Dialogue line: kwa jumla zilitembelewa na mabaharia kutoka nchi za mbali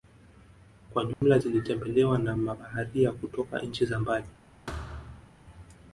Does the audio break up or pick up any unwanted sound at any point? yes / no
yes